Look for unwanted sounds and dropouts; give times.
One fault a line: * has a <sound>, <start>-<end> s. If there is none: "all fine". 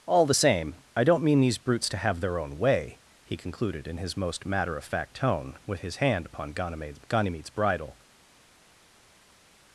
all fine